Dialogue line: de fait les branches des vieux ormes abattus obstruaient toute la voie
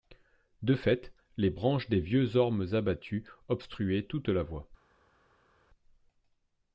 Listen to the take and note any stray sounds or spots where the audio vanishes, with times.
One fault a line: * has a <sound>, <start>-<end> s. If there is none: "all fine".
all fine